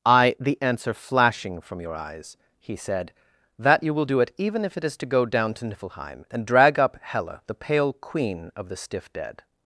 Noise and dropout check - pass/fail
pass